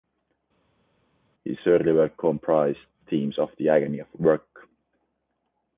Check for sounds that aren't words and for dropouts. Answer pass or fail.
pass